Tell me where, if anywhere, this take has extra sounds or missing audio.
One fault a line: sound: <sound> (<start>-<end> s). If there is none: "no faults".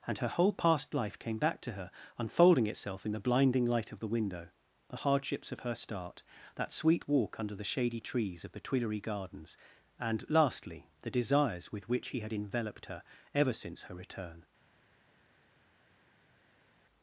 no faults